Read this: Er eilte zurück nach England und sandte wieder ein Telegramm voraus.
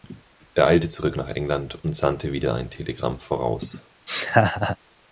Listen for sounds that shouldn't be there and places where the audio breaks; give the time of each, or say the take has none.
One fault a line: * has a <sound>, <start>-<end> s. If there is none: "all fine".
* has a laugh, 4.1-4.8 s